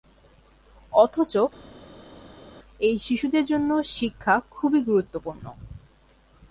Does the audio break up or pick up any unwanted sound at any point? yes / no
no